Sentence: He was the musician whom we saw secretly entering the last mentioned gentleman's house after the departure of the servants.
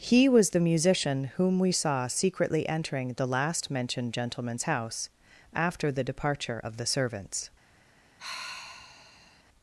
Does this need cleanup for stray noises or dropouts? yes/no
yes